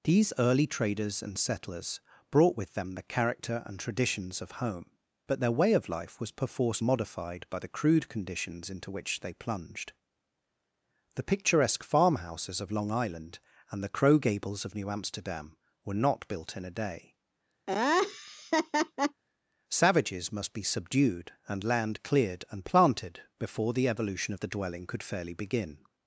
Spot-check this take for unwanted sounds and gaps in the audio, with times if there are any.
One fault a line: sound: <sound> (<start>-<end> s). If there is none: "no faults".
sound: laugh (17.7-19.2 s)